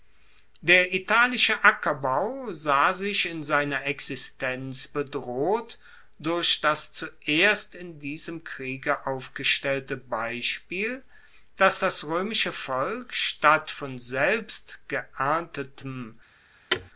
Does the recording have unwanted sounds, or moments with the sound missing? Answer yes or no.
yes